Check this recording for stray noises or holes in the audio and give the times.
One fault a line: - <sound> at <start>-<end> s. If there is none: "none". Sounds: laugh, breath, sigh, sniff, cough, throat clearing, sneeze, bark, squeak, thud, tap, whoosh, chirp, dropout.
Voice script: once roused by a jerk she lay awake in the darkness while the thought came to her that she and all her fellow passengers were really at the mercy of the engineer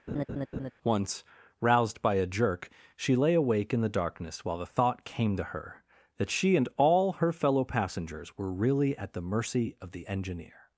- laugh at 0.1-0.7 s